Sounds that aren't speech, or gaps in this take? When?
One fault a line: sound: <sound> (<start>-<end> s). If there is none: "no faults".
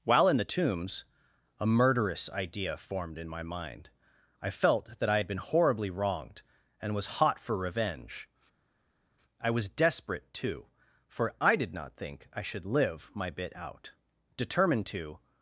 no faults